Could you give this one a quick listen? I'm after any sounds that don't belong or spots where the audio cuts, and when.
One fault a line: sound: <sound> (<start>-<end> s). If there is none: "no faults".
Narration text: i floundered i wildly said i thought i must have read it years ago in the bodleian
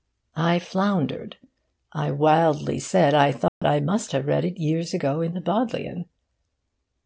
sound: dropout (3.5-3.6 s)